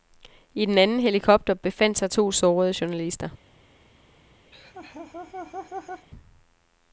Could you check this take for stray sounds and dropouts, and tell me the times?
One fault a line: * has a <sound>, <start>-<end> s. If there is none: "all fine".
* has a laugh, 4.5-6.1 s